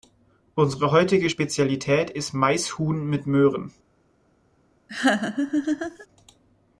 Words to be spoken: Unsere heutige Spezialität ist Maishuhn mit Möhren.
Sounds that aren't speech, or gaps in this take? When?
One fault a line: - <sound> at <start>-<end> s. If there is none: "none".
- laugh at 4.9-6.1 s